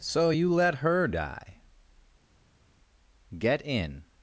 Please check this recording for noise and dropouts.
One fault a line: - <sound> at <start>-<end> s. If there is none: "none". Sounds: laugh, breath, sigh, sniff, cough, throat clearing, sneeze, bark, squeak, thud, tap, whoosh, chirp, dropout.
none